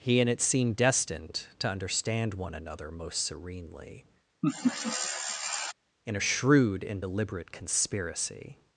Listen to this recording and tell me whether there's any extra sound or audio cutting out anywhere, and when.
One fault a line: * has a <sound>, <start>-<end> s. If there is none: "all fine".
* has a laugh, 4.4-5.7 s